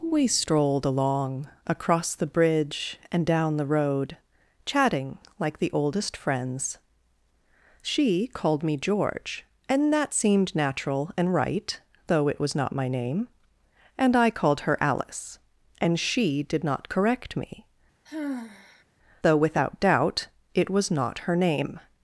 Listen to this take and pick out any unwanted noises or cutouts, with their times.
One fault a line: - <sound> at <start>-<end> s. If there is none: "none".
- sigh at 18.1-18.8 s